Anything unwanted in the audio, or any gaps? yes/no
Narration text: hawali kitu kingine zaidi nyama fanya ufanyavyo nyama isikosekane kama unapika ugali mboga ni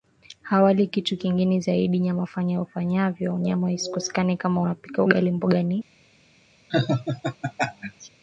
yes